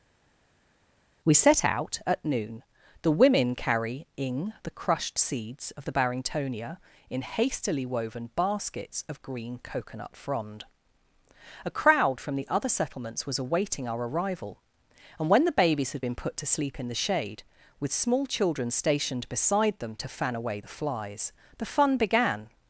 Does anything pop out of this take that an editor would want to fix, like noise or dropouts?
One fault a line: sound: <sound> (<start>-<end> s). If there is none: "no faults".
no faults